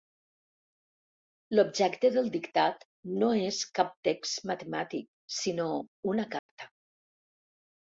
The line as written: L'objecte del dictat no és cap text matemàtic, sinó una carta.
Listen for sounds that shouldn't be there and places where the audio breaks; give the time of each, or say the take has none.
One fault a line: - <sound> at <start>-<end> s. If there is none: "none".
- dropout at 6.4-6.5 s